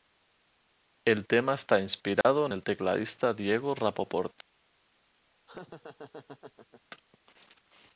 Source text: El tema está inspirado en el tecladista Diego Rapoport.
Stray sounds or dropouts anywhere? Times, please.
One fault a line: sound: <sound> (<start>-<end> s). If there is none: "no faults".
sound: dropout (2.2-2.2 s)
sound: laugh (5.5-6.8 s)